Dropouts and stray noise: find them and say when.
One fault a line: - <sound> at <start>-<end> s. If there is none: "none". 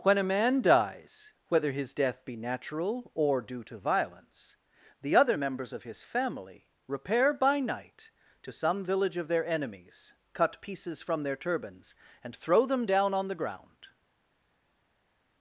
none